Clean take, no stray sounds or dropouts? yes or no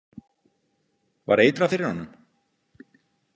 yes